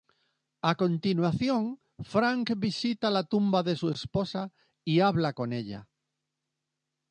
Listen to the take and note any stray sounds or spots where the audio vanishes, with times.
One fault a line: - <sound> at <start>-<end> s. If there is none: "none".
none